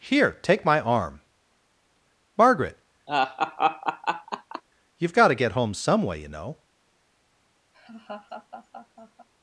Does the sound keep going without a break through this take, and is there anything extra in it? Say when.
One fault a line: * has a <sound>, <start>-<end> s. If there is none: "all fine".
* has a laugh, 3.1-4.6 s
* has a laugh, 7.7-9.3 s